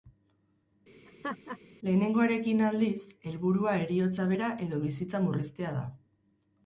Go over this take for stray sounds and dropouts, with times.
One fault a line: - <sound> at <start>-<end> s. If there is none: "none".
- laugh at 1.1-1.6 s